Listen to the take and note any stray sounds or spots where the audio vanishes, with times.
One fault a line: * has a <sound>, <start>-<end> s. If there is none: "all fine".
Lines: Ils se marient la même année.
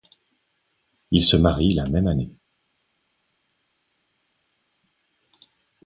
all fine